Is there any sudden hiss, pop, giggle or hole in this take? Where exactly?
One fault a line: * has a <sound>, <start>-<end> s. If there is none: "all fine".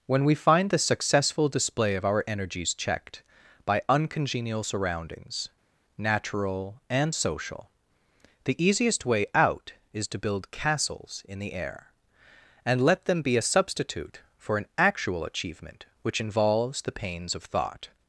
all fine